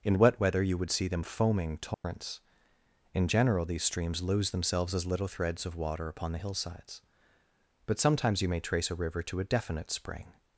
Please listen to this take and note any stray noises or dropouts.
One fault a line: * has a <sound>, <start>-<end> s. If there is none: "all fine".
* has a dropout, 1.9-2.0 s